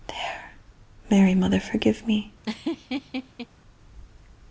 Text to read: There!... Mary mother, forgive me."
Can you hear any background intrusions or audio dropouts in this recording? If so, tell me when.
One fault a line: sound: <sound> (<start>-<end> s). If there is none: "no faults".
sound: laugh (2.4-3.5 s)